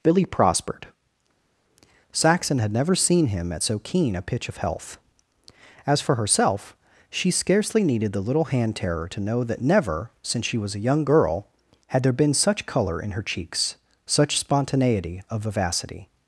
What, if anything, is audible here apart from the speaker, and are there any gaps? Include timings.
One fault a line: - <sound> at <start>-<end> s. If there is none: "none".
none